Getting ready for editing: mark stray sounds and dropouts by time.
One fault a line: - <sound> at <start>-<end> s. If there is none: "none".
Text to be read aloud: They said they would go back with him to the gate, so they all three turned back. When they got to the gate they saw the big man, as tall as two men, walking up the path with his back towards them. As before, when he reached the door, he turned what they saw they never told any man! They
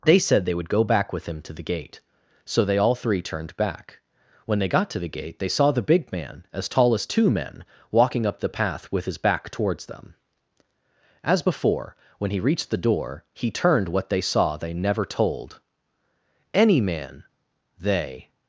none